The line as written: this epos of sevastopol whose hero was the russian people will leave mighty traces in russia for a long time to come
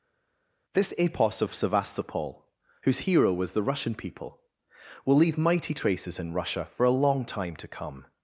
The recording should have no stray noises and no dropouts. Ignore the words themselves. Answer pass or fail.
pass